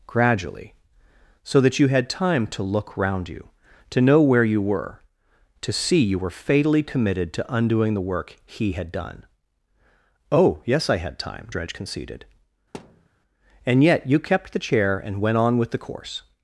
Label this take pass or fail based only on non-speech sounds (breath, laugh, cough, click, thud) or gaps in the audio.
fail